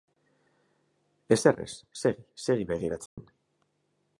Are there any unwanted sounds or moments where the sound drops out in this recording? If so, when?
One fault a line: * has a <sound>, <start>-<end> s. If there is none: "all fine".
* has a dropout, 3.1-3.2 s